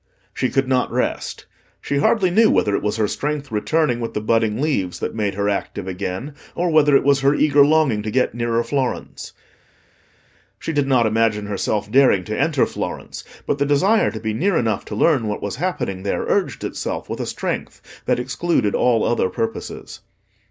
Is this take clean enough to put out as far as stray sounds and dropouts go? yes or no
yes